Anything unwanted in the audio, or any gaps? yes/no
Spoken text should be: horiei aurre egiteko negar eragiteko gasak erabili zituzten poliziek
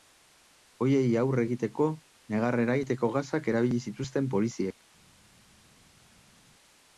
no